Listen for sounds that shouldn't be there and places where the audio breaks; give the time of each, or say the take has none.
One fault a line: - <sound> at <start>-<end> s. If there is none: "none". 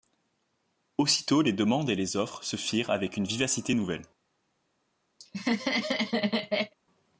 - laugh at 5.2-6.7 s